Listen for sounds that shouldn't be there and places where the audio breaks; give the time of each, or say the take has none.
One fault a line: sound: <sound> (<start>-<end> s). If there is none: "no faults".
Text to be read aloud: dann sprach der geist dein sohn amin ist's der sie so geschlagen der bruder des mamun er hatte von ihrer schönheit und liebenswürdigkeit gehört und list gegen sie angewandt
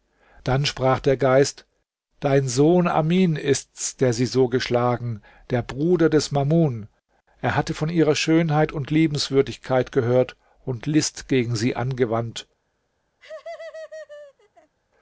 sound: laugh (13.2-14.7 s)